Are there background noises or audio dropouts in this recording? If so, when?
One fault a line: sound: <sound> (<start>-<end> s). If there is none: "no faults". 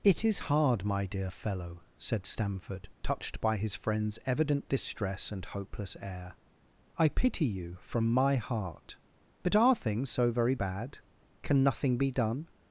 no faults